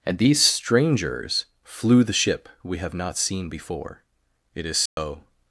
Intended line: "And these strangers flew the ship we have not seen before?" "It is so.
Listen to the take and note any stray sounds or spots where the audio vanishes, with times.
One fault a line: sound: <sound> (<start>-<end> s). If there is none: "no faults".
sound: dropout (4.9-5.0 s)